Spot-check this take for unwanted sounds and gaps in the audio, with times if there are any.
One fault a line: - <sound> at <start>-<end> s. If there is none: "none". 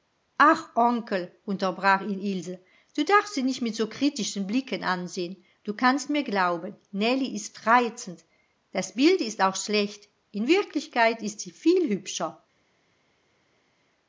none